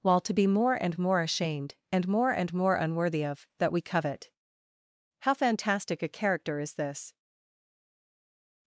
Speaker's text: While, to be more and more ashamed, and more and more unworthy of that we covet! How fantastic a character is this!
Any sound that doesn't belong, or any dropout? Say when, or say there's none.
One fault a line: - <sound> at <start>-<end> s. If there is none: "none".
none